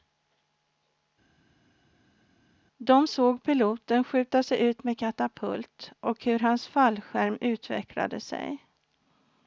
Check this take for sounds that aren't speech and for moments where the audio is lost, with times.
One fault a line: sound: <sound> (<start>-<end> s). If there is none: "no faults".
no faults